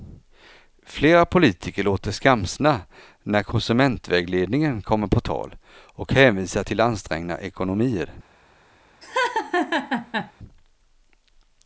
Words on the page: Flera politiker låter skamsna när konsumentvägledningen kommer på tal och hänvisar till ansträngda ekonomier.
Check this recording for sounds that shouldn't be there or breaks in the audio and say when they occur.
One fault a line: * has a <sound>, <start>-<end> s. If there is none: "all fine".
* has a laugh, 9.0-10.3 s